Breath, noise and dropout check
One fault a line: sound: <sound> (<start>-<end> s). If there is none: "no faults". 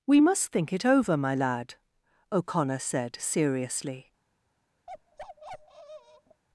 sound: bark (4.9-6.4 s)